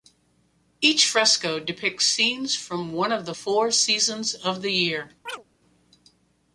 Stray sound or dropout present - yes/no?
yes